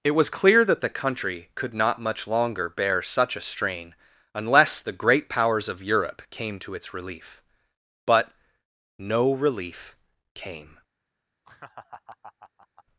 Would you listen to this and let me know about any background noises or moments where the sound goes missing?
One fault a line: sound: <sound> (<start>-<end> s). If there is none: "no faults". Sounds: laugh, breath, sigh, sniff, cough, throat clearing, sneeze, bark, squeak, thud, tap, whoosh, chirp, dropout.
sound: laugh (11.4-12.8 s)